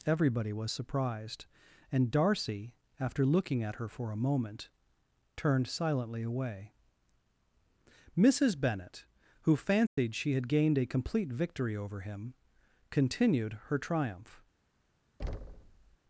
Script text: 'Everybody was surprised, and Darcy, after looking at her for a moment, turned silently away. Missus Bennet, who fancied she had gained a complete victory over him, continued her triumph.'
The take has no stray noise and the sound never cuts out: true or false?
false